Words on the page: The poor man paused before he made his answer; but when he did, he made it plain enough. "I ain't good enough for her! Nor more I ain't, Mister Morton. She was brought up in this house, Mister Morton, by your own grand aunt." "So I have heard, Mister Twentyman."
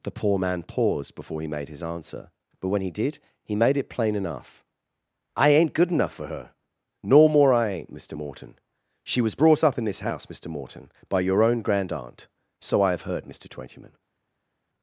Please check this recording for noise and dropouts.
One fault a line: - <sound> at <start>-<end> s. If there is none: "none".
none